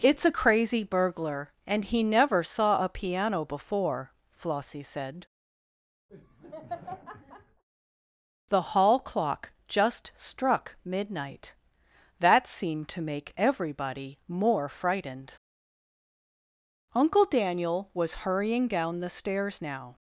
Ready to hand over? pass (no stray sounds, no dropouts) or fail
fail